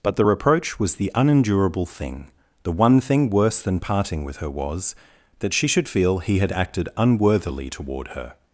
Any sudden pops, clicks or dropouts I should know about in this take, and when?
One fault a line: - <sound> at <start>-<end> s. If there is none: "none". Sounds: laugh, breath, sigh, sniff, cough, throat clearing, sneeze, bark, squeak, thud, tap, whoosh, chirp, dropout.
none